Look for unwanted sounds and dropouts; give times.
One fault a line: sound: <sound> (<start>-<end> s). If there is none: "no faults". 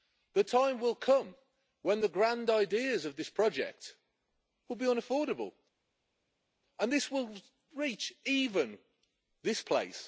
no faults